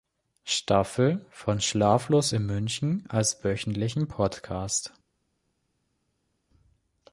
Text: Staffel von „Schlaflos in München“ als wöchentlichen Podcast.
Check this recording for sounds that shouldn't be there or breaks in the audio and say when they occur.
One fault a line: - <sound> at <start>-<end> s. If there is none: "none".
none